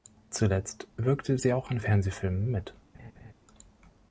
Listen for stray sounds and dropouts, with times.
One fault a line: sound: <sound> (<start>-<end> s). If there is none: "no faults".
sound: laugh (2.9-3.3 s)